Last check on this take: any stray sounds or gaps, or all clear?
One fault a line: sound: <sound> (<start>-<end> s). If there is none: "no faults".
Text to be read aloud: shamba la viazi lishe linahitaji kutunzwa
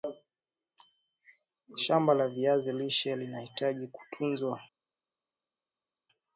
no faults